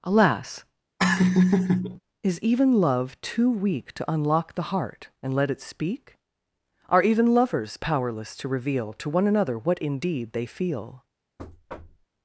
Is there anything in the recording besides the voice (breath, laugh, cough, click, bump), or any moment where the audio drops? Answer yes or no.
yes